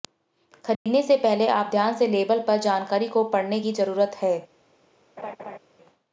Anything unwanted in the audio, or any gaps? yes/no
yes